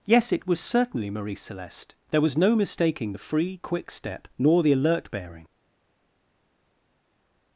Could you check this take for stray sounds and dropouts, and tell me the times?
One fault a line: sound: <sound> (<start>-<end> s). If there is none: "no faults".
no faults